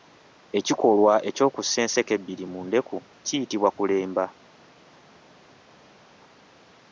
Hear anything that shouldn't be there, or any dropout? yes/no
no